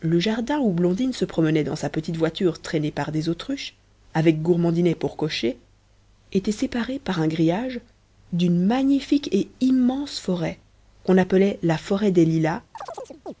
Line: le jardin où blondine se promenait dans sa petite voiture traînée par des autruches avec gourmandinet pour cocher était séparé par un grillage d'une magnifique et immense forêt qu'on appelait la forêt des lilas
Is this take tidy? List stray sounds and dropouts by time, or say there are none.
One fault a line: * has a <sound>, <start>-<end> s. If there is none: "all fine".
* has a chirp, 12.7-13.3 s